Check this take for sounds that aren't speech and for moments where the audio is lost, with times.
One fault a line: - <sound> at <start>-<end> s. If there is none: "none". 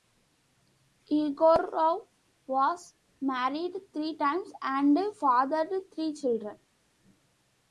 none